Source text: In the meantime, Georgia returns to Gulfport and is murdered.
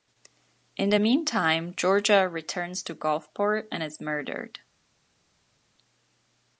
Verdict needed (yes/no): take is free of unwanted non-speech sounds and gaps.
yes